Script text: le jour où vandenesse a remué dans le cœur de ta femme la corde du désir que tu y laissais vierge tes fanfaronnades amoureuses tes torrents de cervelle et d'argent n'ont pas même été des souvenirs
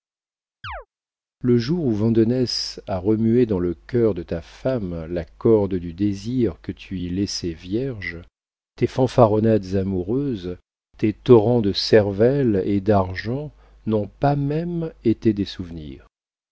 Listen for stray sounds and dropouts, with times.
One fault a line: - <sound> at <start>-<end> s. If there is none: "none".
- chirp at 0.6-0.9 s